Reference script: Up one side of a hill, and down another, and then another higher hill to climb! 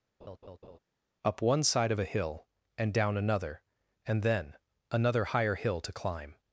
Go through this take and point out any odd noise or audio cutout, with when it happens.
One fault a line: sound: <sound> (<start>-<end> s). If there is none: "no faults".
sound: laugh (0.2-0.8 s)